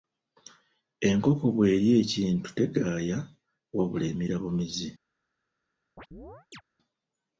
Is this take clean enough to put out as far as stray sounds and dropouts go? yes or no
no